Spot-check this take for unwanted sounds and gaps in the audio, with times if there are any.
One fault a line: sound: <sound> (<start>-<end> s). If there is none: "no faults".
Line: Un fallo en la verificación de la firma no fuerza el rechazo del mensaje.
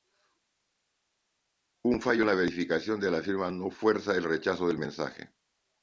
no faults